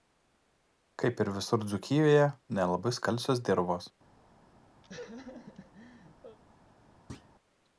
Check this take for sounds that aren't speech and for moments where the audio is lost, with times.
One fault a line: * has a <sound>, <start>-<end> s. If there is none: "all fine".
* has a laugh, 4.8-6.4 s
* has a thud, 7.1-7.3 s